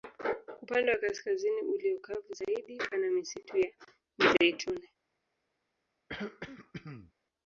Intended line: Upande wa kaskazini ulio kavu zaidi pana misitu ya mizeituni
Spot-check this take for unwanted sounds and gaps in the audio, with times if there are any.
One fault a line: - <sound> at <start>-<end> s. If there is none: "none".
- throat clearing at 6.1-7.1 s